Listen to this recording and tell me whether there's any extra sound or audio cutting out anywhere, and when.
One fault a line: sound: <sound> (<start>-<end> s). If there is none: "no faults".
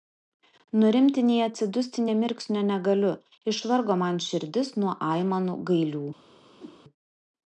sound: whoosh (6.6-6.8 s)